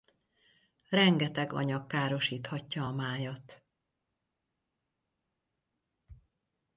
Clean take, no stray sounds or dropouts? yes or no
yes